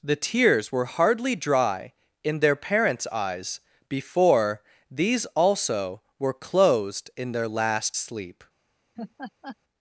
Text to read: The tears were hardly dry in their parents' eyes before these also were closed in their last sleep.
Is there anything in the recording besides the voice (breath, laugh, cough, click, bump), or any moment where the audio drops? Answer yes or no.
yes